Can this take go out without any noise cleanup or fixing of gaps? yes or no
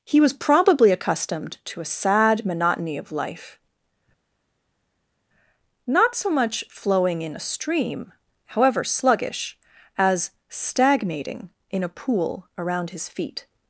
yes